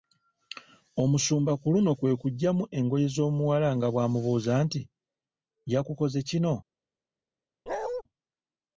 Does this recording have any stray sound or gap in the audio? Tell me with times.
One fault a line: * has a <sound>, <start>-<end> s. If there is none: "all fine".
* has a bark, 7.7-8.0 s